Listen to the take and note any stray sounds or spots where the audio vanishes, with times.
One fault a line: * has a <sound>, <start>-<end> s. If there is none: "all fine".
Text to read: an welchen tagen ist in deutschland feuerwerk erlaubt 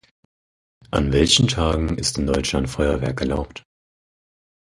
all fine